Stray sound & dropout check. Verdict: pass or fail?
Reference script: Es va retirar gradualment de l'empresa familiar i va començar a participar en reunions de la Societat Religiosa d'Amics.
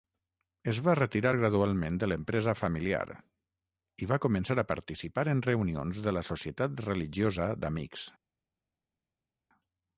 pass